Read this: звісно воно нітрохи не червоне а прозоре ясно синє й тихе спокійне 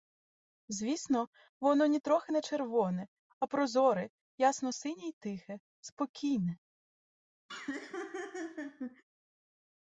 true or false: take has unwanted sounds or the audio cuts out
true